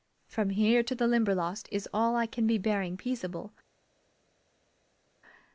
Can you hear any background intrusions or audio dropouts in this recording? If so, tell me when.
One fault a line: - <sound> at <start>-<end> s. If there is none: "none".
none